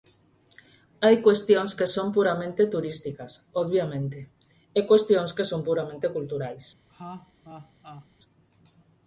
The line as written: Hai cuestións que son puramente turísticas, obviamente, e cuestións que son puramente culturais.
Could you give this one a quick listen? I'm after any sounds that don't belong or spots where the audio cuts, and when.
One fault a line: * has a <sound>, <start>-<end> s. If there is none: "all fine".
* has a laugh, 6.9-8.1 s